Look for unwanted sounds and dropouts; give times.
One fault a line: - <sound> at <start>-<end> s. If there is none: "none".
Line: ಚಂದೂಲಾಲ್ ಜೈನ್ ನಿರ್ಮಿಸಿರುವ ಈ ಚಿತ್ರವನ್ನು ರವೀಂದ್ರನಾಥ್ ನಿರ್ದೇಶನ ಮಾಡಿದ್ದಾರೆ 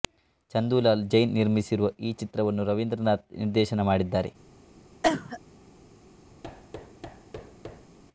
- cough at 5.0-5.4 s
- thud at 6.4-8.0 s